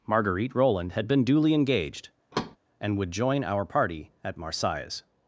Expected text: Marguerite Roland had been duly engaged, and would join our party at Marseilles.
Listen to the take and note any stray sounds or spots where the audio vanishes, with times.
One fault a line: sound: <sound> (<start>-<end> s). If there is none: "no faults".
sound: thud (2.3-2.6 s)